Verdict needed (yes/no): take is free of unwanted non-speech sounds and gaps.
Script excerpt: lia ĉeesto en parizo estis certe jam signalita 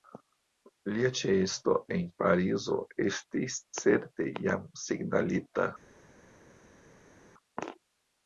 yes